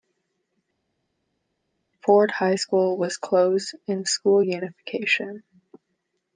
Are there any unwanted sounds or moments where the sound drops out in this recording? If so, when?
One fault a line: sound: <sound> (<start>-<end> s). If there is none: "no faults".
no faults